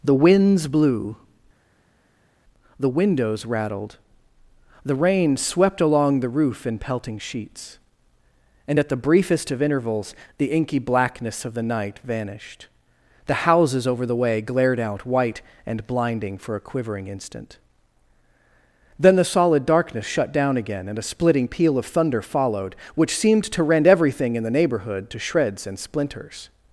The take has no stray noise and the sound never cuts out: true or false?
true